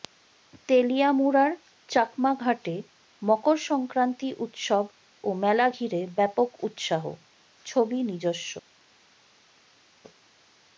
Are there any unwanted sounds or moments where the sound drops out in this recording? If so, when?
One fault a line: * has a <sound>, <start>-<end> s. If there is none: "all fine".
all fine